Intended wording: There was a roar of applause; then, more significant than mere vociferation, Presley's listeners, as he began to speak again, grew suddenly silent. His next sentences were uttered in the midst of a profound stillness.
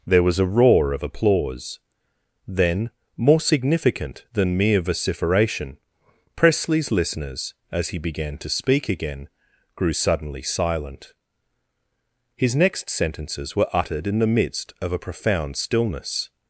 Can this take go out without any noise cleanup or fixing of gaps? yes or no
yes